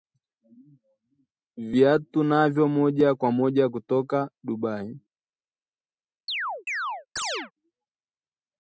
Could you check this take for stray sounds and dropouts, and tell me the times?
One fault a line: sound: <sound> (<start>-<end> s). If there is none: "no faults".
sound: chirp (6.3-7.5 s)